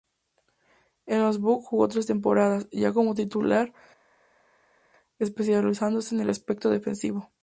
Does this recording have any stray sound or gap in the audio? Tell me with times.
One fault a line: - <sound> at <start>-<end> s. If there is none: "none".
none